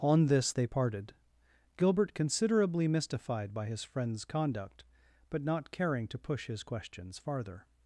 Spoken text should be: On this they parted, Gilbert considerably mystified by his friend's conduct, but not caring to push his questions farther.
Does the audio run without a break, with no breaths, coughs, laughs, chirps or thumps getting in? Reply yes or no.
yes